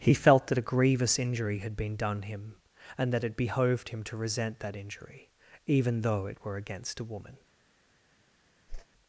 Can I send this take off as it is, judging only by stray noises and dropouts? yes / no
no